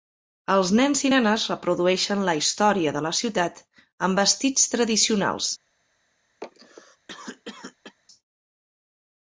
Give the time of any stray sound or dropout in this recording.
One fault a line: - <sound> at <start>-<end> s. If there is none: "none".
- cough at 6.4-8.0 s